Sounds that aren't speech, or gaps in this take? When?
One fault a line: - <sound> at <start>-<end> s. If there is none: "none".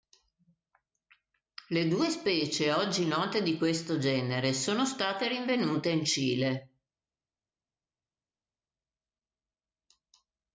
none